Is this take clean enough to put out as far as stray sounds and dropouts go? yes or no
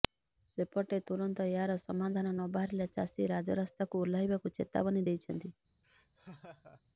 no